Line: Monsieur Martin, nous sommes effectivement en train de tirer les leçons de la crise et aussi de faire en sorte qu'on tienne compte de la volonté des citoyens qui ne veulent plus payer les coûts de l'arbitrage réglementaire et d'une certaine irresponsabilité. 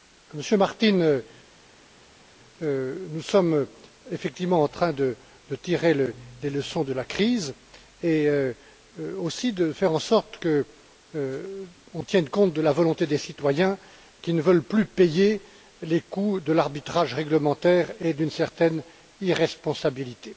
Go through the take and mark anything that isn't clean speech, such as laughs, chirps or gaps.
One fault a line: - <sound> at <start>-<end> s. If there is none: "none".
none